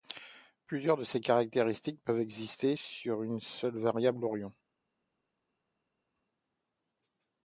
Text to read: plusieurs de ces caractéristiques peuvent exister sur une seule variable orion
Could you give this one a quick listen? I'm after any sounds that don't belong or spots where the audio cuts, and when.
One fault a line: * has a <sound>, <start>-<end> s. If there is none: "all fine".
all fine